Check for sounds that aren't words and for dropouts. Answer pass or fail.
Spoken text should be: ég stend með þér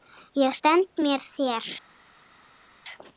pass